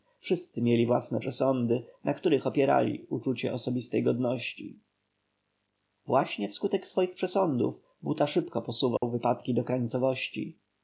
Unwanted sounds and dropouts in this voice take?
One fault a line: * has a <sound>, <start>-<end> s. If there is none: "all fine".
* has a dropout, 9.0-9.0 s